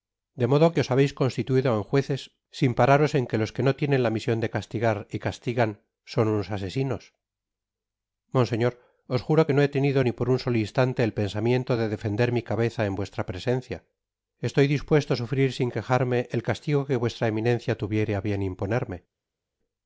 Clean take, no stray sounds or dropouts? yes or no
yes